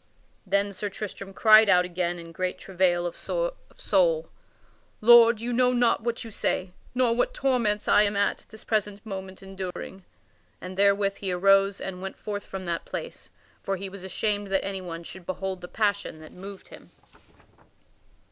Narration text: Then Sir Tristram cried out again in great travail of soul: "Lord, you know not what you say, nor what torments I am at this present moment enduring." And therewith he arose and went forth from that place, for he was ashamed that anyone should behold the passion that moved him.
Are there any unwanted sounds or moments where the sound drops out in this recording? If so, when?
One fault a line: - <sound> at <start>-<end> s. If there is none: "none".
- dropout at 9.7-9.8 s